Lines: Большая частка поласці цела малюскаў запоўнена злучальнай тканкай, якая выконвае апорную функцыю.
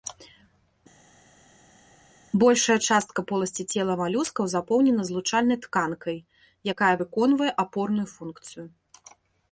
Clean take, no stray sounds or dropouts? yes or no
yes